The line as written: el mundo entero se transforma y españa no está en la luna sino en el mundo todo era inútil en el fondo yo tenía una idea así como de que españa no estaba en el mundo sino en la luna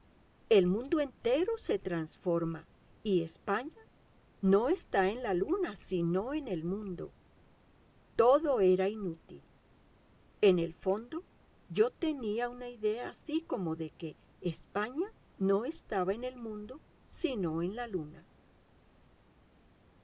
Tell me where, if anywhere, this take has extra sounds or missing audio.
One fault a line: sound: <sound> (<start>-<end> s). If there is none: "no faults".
no faults